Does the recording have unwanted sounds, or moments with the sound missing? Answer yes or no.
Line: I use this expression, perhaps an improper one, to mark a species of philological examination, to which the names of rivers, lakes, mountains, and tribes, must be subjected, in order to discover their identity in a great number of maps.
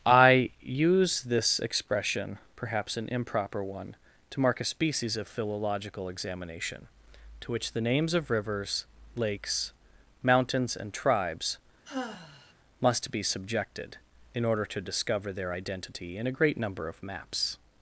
yes